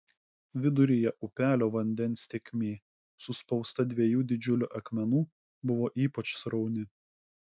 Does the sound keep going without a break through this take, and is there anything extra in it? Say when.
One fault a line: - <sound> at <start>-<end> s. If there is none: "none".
none